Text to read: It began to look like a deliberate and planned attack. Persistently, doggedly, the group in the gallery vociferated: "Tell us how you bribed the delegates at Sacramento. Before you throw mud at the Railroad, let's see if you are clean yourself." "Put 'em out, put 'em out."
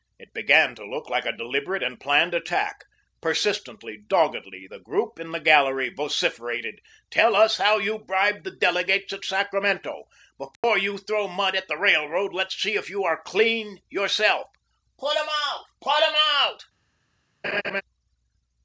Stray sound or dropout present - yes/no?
yes